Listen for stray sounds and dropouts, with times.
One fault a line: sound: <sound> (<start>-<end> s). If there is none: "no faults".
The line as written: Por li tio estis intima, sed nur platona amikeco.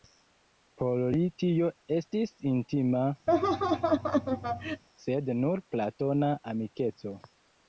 sound: laugh (3.3-4.8 s)